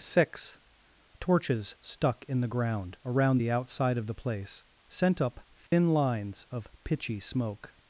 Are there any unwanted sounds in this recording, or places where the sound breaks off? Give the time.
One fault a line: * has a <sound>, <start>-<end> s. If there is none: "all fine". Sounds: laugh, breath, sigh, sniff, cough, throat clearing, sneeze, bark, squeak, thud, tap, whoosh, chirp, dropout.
* has a dropout, 5.7-5.7 s